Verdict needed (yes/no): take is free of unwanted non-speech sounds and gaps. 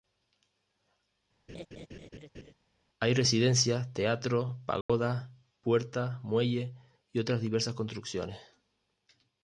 no